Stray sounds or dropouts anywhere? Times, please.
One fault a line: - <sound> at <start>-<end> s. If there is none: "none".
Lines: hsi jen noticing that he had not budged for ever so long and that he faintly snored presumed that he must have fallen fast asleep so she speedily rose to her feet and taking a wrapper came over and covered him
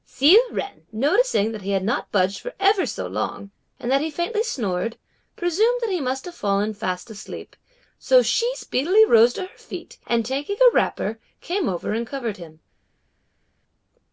none